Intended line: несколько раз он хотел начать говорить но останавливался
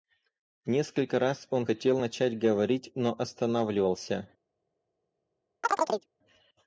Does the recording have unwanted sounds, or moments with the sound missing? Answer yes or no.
yes